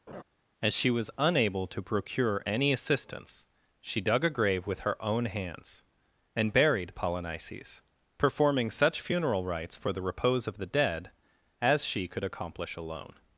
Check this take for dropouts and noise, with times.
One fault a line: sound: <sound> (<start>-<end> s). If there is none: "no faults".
sound: laugh (0.1-0.2 s)